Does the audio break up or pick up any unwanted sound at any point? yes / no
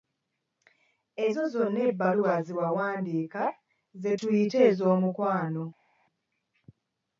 no